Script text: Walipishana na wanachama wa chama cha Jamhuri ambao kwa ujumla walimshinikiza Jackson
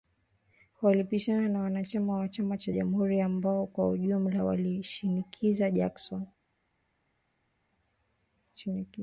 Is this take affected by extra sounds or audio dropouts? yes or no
no